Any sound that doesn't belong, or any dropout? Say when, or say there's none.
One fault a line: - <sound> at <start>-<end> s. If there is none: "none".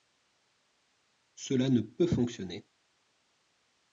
none